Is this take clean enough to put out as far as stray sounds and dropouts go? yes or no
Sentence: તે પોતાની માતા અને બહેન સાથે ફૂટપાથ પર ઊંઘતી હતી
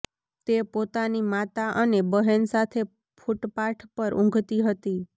yes